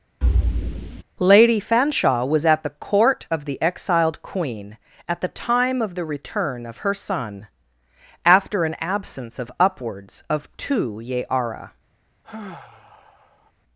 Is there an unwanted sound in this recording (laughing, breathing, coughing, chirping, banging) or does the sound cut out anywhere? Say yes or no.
yes